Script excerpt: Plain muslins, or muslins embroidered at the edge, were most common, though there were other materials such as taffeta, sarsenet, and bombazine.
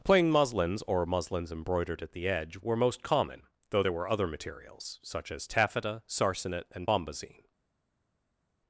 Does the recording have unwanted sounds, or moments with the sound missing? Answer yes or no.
no